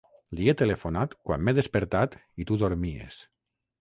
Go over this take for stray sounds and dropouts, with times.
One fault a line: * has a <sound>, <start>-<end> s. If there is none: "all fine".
all fine